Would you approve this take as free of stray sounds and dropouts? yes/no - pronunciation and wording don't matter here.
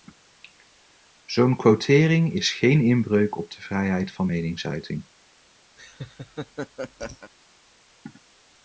no